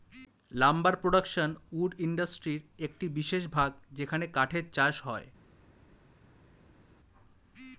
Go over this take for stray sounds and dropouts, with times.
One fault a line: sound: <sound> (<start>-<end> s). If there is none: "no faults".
no faults